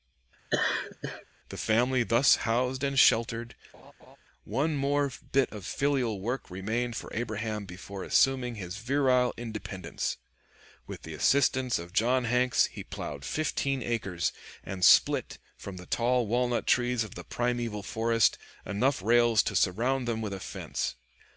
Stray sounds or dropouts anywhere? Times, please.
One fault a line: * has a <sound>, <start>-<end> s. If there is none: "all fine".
* has a laugh, 0.5-1.2 s
* has a laugh, 3.7-4.2 s